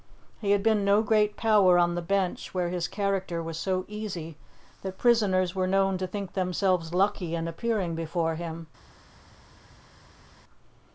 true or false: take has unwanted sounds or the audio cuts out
false